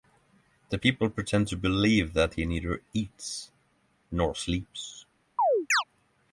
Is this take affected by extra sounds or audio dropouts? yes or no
yes